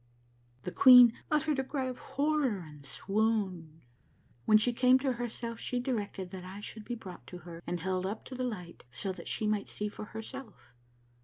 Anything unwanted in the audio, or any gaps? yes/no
no